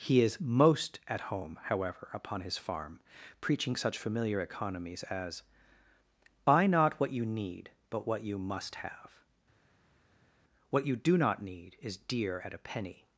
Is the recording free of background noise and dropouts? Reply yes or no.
yes